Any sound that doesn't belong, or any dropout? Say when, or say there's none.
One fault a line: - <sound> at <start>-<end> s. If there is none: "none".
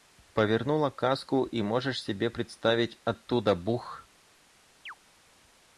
- chirp at 4.9-5.0 s